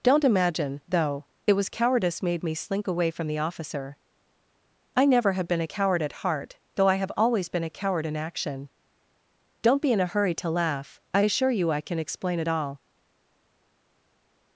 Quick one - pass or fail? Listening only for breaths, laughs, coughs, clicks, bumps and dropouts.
pass